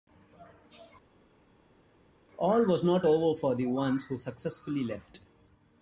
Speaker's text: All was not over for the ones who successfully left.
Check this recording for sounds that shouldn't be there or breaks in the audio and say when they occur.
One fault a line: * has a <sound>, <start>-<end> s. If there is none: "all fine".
all fine